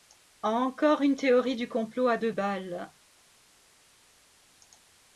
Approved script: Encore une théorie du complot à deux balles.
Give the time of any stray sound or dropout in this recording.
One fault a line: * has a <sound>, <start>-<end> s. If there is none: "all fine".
all fine